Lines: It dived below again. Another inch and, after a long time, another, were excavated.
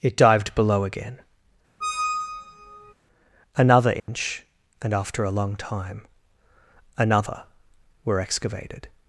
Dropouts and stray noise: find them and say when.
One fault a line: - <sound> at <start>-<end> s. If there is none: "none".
- squeak at 1.8-2.9 s
- dropout at 4.0-4.1 s